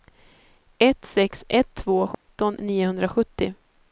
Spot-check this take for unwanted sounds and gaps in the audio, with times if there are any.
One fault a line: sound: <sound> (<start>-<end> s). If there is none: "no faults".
sound: dropout (2.1-2.3 s)